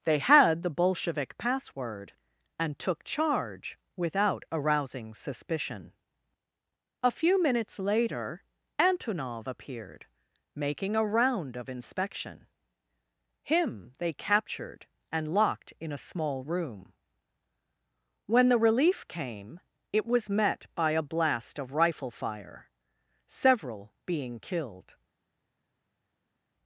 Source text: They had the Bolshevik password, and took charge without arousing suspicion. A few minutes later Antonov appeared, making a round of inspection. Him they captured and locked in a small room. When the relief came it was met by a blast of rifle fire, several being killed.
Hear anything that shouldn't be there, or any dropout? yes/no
no